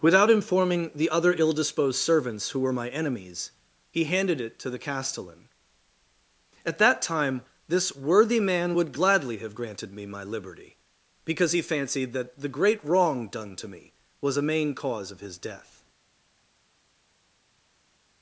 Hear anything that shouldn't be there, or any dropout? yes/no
no